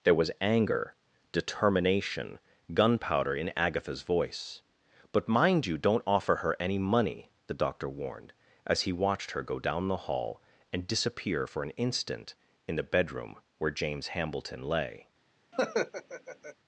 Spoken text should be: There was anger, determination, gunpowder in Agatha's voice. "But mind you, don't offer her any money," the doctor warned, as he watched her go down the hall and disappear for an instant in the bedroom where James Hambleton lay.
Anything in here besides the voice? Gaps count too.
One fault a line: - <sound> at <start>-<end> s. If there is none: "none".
- laugh at 15.5-16.6 s